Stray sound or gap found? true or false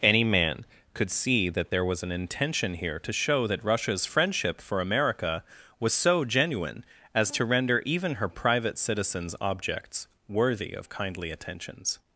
false